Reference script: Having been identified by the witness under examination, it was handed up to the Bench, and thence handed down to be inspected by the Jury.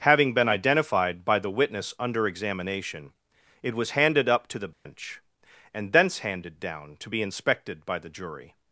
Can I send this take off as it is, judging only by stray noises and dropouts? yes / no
no